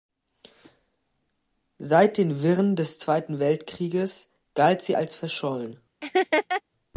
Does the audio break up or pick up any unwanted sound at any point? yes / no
yes